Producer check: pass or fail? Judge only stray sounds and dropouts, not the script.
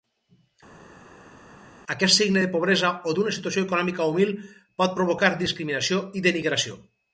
pass